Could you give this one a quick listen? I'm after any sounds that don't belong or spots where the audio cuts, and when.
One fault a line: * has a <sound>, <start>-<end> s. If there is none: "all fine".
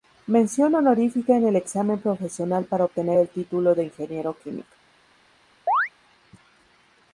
* has a chirp, 5.7-5.9 s